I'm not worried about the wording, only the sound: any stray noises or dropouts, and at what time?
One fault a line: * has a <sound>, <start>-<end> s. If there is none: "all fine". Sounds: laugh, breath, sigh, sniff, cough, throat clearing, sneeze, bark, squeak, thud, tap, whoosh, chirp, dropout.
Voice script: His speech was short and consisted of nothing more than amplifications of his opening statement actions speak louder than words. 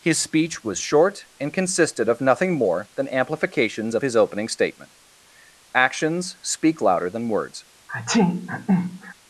* has a sneeze, 7.9-9.1 s